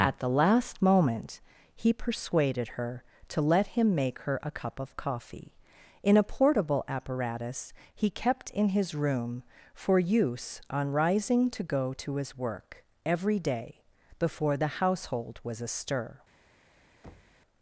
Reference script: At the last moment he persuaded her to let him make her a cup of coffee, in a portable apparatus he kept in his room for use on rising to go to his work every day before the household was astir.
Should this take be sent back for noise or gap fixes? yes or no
yes